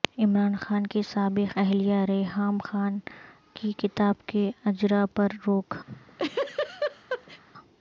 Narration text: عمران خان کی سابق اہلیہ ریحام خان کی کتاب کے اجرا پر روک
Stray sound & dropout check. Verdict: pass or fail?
fail